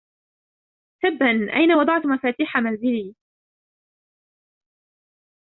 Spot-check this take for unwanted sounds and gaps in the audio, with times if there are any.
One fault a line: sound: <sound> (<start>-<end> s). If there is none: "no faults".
no faults